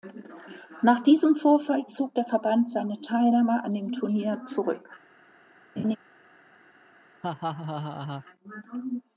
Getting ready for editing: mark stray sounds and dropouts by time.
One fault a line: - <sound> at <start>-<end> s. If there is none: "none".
- laugh at 5.8-6.0 s
- laugh at 7.2-8.2 s